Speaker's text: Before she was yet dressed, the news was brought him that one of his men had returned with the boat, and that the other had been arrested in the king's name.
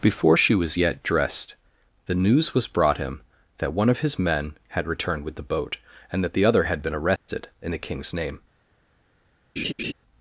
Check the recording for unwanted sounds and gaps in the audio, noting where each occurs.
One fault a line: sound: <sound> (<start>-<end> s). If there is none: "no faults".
sound: dropout (7.2-7.3 s)
sound: laugh (9.6-9.9 s)